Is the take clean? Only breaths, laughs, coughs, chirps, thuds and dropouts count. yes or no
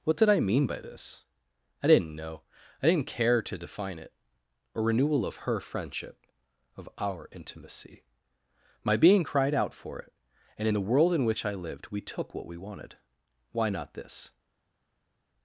yes